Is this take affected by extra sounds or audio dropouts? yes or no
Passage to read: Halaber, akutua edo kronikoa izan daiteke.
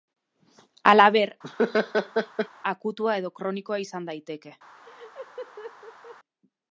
yes